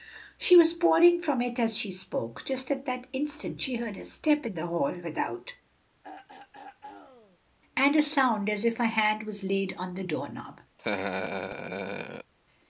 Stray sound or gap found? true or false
true